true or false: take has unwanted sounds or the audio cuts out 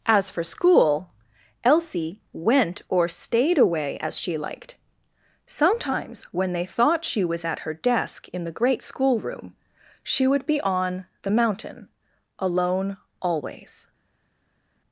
false